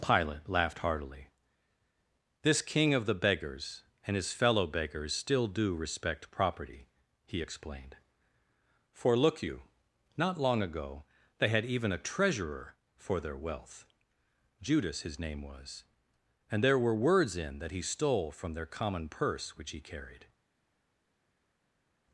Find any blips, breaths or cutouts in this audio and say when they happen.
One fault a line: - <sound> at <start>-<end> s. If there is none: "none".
none